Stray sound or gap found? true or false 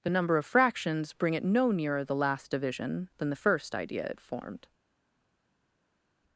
false